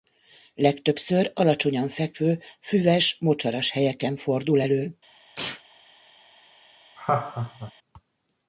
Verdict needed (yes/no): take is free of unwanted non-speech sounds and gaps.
no